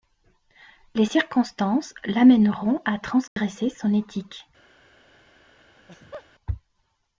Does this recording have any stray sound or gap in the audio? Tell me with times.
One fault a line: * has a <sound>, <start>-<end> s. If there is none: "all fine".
* has a dropout, 3.3-3.4 s
* has a laugh, 5.8-6.3 s